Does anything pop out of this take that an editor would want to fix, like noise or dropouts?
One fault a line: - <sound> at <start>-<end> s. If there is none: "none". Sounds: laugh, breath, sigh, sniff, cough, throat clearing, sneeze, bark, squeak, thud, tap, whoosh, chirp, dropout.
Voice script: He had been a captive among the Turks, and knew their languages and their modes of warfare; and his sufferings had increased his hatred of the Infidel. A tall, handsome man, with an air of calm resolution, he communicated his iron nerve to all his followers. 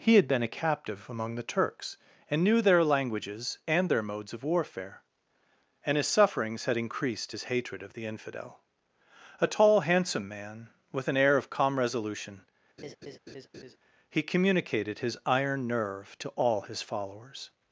- laugh at 12.8-13.8 s